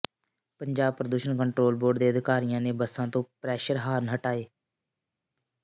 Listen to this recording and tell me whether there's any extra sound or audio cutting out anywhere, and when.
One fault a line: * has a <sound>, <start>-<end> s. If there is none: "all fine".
all fine